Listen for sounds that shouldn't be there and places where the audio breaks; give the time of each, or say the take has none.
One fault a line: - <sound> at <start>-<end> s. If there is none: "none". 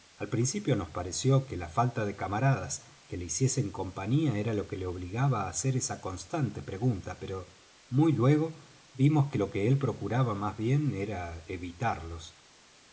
none